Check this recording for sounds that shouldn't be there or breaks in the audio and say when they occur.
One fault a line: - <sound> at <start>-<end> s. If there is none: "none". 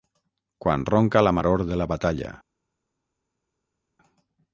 none